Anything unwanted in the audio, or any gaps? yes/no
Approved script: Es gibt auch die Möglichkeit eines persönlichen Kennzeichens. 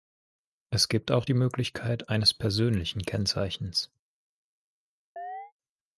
yes